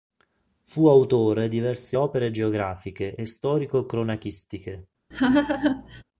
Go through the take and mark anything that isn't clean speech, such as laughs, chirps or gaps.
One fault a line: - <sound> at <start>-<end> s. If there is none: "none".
- laugh at 5.1-6.0 s